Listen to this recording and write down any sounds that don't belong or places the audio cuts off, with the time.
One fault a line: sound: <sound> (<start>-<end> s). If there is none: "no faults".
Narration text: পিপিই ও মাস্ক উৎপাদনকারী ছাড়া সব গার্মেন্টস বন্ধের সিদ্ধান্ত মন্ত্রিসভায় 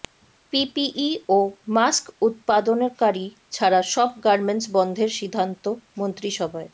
no faults